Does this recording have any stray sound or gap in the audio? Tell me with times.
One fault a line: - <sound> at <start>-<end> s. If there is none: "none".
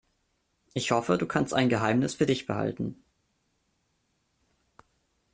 none